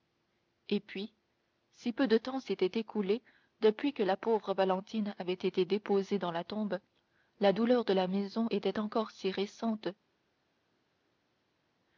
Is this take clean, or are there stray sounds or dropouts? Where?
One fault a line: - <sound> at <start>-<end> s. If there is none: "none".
none